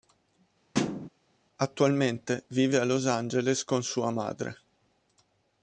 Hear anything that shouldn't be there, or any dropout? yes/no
yes